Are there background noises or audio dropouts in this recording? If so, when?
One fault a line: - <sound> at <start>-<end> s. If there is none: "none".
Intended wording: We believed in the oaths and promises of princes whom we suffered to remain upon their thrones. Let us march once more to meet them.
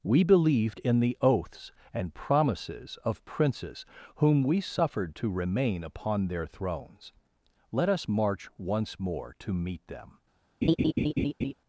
- laugh at 10.6-11.5 s